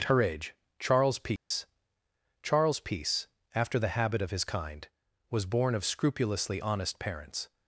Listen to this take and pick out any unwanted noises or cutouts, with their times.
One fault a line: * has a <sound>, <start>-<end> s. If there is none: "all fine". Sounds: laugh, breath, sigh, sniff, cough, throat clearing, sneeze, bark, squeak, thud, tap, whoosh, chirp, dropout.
* has a dropout, 1.4-1.5 s